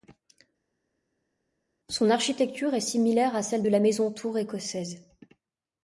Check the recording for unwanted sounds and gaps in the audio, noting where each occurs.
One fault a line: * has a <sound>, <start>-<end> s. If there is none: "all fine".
all fine